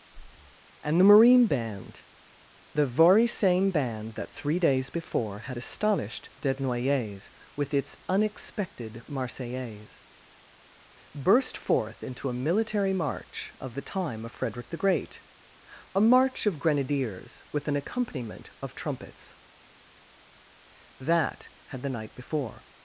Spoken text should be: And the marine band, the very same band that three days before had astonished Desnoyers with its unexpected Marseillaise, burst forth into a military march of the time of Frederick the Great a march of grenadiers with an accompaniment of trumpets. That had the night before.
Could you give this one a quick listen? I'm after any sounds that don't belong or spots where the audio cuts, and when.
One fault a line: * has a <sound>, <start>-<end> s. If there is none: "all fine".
* has a breath, 0.1-0.6 s